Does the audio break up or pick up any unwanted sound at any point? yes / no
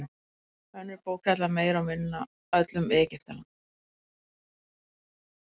no